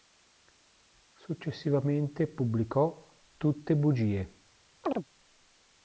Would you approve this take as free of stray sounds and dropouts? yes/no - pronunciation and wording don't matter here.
no